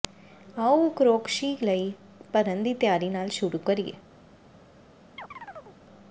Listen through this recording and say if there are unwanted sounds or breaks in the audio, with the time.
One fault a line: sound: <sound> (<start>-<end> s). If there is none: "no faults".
sound: chirp (5.2-5.8 s)